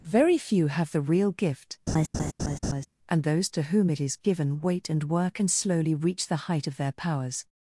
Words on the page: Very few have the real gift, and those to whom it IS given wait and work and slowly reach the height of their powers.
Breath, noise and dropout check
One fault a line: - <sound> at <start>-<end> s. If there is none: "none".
- laugh at 1.9-2.9 s